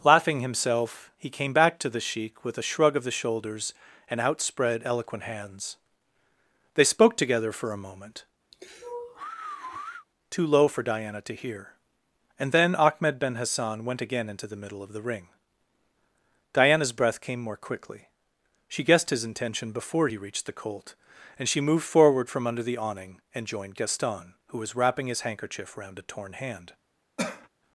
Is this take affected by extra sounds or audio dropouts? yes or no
yes